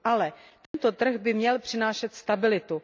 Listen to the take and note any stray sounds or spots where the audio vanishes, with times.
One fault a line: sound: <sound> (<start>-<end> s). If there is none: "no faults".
sound: dropout (0.7-0.7 s)